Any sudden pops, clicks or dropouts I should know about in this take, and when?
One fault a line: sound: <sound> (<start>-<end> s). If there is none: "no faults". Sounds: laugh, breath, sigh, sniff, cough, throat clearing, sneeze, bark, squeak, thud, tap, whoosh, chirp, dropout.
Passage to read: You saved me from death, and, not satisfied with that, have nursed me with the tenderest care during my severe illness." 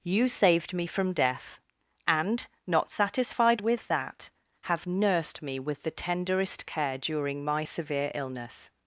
no faults